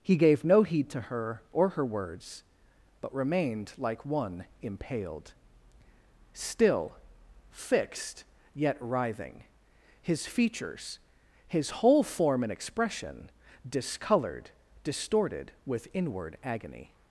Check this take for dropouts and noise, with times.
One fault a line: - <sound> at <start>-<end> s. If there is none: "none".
none